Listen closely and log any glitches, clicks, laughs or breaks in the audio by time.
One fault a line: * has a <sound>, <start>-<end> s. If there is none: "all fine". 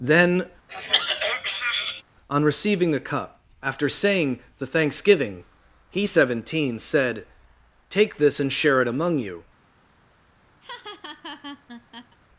* has a throat clearing, 0.7-2.0 s
* has a laugh, 10.6-12.2 s